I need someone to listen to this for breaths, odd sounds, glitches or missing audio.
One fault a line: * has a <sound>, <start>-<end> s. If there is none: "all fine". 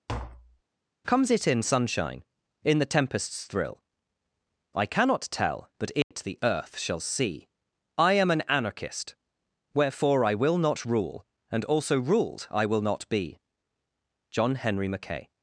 * has a tap, 0.1-0.6 s
* has a dropout, 6.0-6.1 s